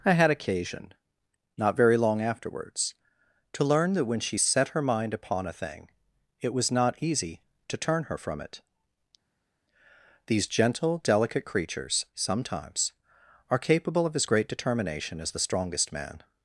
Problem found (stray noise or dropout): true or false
false